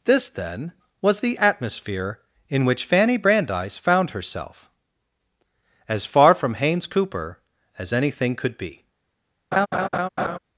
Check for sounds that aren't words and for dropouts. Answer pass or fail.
fail